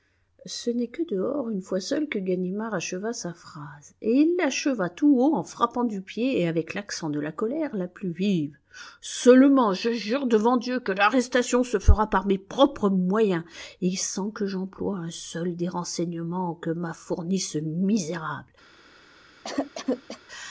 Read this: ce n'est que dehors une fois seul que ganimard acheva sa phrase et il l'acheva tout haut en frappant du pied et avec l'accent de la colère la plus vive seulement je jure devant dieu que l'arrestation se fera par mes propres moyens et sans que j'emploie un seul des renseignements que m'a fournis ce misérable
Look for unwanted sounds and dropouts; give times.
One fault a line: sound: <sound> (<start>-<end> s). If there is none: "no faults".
sound: cough (19.4-20.2 s)